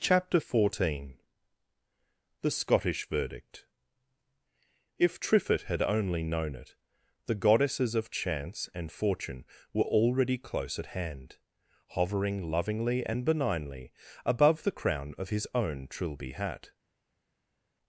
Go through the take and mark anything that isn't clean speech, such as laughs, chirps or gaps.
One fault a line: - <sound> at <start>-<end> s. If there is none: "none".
none